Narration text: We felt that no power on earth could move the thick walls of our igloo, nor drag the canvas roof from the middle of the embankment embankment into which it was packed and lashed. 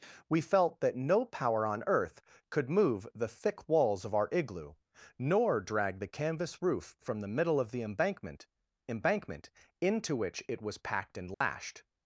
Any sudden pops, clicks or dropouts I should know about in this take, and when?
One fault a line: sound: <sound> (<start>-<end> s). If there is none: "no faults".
sound: dropout (11.3-11.4 s)